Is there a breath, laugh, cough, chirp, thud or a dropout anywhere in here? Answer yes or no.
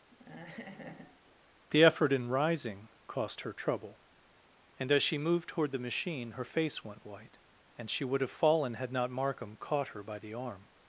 yes